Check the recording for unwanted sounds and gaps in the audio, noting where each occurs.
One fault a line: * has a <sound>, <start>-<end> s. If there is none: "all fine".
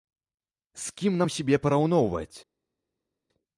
all fine